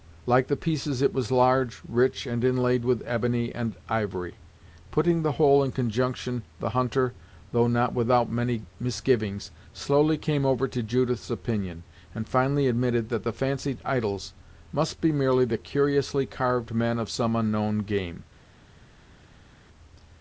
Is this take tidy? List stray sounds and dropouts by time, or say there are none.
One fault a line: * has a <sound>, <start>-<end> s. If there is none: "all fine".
all fine